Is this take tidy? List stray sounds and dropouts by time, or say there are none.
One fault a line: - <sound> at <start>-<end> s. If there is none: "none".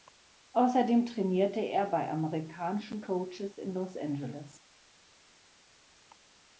none